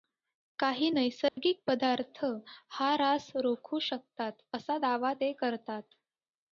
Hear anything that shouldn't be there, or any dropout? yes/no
yes